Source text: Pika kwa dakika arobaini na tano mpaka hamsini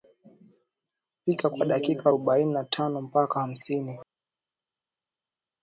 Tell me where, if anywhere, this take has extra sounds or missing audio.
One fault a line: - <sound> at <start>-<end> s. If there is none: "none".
none